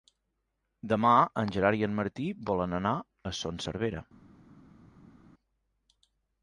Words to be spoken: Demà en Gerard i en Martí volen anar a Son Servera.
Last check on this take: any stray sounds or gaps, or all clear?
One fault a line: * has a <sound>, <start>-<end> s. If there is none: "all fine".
all fine